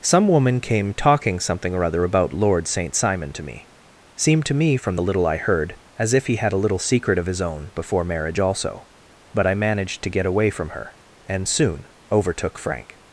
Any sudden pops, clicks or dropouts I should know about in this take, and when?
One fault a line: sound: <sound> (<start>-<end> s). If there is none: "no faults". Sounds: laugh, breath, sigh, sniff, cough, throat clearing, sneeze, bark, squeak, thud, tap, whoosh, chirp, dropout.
no faults